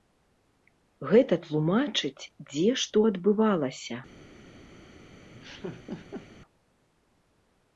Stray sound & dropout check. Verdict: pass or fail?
fail